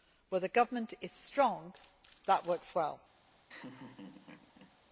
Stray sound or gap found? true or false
true